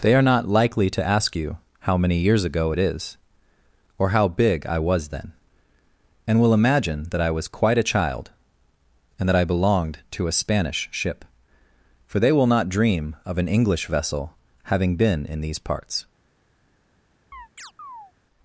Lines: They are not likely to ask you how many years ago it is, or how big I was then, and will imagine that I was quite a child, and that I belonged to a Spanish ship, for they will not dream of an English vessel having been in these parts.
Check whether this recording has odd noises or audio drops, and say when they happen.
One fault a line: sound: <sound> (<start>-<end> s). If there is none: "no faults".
sound: chirp (17.3-18.1 s)